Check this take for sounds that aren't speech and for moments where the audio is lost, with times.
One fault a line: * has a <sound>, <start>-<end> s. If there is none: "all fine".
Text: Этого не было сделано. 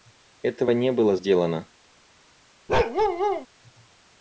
* has a bark, 2.7-3.5 s